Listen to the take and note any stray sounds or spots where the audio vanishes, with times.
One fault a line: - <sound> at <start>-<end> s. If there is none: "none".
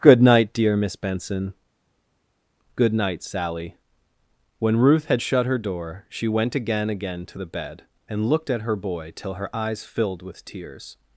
none